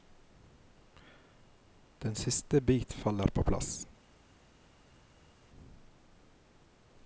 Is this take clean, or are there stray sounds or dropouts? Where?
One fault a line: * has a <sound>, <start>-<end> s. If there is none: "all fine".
all fine